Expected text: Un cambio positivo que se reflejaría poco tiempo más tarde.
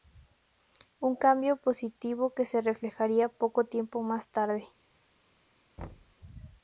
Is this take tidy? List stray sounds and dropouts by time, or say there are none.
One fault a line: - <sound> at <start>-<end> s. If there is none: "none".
- thud at 5.8-6.2 s